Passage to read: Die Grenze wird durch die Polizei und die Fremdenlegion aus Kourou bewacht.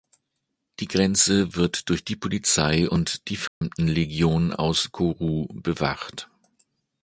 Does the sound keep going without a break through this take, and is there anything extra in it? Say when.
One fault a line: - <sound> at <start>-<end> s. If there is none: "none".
- dropout at 3.5-3.6 s